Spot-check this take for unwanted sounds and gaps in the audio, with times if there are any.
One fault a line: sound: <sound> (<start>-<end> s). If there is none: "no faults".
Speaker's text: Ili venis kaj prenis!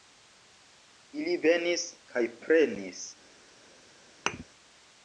sound: thud (4.3-4.4 s)